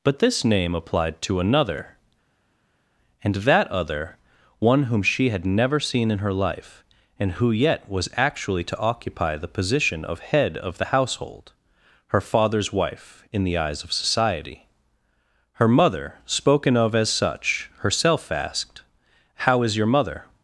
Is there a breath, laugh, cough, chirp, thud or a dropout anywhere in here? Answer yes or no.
no